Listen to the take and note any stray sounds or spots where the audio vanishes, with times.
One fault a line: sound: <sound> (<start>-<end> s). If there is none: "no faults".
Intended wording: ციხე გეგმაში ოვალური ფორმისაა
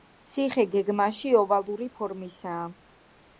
no faults